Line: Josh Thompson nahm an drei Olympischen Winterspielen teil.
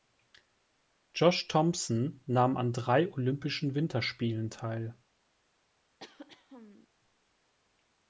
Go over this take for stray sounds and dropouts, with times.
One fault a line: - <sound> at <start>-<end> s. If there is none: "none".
- throat clearing at 6.0-6.9 s